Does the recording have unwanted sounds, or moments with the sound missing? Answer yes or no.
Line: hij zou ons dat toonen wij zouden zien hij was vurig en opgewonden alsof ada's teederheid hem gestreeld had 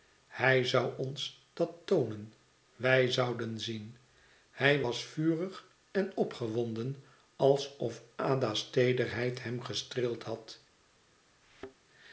yes